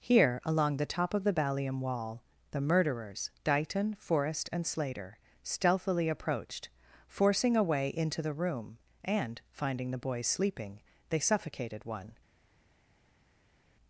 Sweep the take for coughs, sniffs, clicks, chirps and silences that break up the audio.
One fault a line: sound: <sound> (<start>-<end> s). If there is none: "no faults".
no faults